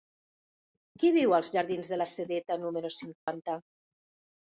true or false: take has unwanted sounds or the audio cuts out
true